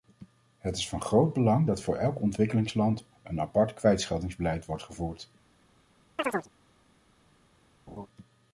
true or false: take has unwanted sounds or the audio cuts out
true